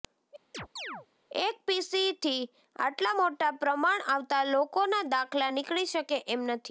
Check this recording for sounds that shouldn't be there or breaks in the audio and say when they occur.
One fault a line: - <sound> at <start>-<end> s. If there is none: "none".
- chirp at 0.5-1.1 s